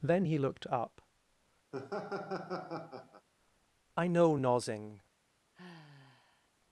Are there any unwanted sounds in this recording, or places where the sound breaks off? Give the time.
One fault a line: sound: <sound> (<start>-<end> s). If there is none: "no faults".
sound: laugh (1.7-3.3 s)
sound: sigh (5.5-6.5 s)